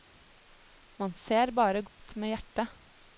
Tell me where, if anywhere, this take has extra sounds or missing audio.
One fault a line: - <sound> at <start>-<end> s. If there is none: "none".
- dropout at 1.9-2.0 s